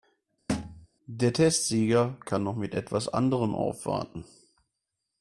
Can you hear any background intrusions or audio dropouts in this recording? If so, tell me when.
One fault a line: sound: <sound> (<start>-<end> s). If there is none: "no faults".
sound: thud (0.5-0.9 s)